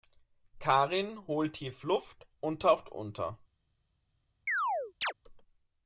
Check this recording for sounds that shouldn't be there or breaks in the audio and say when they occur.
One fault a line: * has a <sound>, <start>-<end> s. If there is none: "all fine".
* has a chirp, 4.5-5.1 s